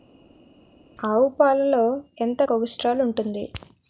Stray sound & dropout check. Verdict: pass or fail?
pass